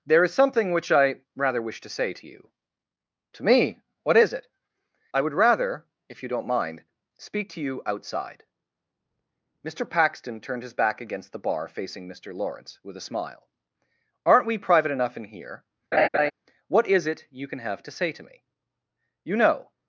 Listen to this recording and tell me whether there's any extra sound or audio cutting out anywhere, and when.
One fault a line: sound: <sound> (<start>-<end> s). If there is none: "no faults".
sound: laugh (15.9-16.3 s)